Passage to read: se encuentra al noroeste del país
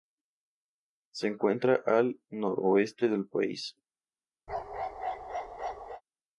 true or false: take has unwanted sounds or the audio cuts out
true